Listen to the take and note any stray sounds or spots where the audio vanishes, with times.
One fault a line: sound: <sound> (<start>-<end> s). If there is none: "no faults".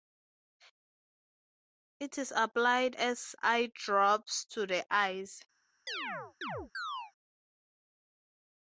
sound: chirp (5.9-7.1 s)